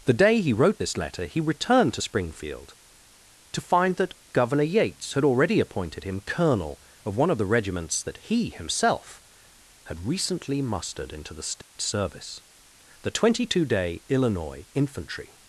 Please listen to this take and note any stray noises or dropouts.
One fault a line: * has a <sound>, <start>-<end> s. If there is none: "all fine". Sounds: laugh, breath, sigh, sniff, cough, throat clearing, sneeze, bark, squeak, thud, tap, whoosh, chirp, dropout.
* has a dropout, 11.6-11.7 s